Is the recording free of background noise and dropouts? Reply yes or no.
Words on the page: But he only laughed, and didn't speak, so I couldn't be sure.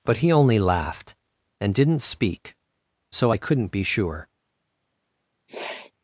no